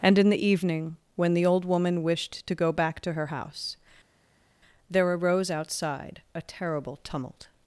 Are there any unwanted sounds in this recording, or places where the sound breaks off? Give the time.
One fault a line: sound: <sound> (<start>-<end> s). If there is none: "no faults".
no faults